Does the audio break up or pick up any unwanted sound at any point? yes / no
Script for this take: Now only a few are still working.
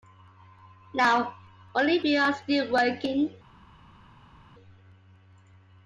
no